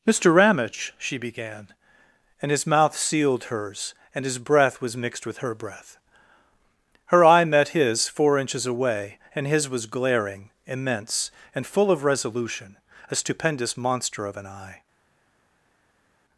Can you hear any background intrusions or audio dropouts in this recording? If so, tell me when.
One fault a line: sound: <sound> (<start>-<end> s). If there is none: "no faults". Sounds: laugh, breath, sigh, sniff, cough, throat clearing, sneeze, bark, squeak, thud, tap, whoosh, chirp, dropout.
no faults